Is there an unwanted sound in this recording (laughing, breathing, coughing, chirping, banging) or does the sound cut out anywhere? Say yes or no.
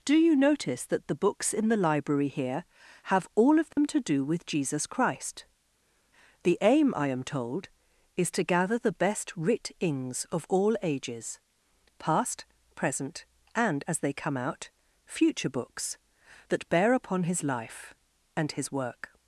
yes